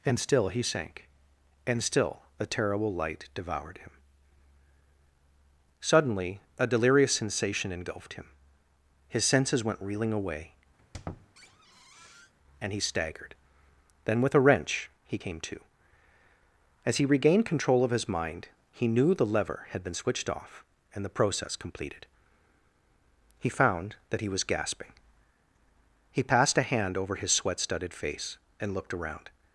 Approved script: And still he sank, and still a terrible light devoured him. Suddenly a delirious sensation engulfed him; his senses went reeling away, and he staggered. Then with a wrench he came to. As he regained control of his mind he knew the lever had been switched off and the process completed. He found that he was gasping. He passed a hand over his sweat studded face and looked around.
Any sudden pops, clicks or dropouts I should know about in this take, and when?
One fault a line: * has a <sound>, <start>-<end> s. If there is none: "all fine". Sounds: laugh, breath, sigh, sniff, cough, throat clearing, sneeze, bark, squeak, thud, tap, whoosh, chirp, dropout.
* has a squeak, 10.8-12.3 s